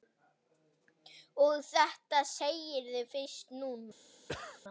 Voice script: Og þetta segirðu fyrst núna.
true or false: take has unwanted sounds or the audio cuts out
true